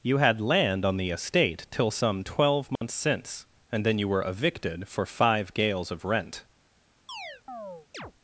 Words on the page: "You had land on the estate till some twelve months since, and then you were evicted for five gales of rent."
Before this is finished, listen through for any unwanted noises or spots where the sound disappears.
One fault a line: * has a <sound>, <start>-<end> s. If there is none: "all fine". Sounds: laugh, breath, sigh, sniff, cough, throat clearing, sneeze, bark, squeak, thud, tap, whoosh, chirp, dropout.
* has a dropout, 2.8-2.8 s
* has a chirp, 7.1-8.1 s